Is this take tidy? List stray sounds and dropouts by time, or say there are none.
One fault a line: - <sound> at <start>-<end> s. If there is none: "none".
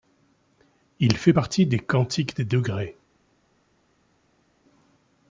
none